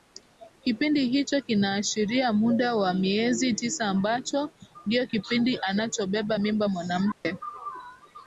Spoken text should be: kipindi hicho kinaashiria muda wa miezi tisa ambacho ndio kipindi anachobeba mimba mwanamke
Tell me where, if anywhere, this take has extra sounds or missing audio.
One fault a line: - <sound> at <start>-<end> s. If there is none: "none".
- dropout at 7.1-7.3 s